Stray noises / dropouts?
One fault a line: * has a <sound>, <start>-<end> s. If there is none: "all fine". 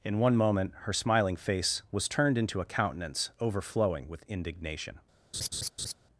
* has a laugh, 5.3-5.9 s